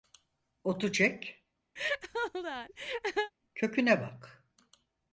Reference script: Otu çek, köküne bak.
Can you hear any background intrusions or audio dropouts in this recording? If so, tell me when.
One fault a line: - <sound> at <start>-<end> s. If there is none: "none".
- laugh at 1.8-3.3 s